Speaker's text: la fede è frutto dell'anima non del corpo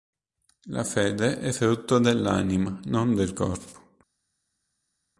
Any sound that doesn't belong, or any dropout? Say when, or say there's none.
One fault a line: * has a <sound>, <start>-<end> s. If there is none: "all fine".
all fine